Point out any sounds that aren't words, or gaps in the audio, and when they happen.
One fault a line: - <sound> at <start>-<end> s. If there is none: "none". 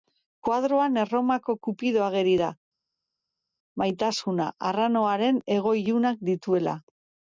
none